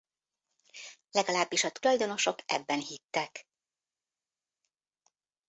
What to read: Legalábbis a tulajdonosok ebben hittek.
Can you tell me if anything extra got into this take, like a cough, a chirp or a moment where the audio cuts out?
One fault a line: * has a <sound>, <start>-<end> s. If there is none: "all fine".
all fine